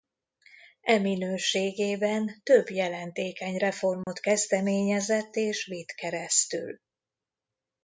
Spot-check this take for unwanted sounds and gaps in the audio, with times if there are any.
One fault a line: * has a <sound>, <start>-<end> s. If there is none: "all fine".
* has a dropout, 4.0-4.1 s